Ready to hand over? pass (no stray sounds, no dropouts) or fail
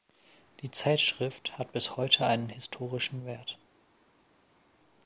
pass